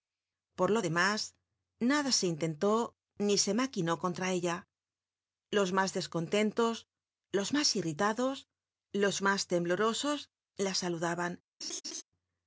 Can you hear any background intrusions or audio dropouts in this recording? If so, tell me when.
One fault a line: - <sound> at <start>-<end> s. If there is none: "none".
- laugh at 11.6-12.0 s